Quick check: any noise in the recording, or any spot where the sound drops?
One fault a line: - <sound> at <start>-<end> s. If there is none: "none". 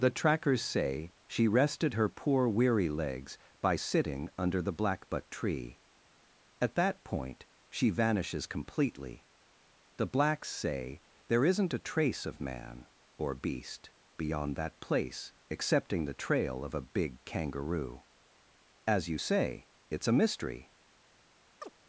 - chirp at 21.6-21.7 s